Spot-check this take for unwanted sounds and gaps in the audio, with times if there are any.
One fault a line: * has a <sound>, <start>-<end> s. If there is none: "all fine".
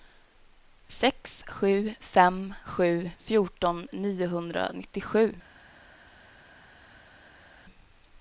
all fine